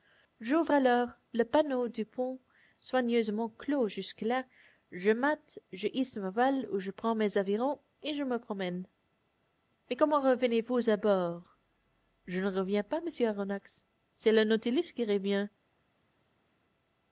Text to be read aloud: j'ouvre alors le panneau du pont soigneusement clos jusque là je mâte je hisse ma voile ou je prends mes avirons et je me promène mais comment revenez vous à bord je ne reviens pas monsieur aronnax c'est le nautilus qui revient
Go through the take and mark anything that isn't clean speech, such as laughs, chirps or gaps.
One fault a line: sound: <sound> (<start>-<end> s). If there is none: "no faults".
no faults